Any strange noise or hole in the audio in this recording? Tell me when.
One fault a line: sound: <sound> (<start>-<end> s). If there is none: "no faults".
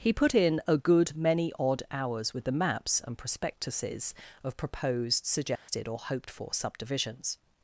sound: dropout (5.6-5.7 s)